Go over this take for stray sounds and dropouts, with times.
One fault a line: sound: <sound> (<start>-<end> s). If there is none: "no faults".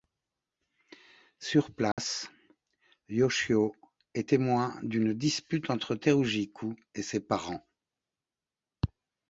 sound: dropout (1.9-2.0 s)